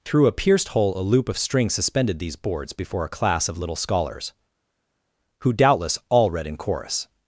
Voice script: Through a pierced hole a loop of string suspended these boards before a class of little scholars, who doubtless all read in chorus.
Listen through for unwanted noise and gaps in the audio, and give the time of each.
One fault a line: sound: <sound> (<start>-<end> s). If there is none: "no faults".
no faults